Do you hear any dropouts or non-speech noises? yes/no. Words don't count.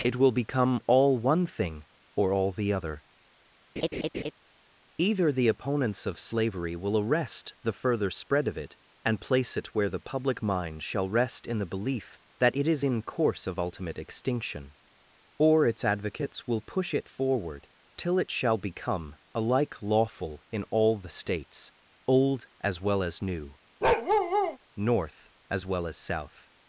yes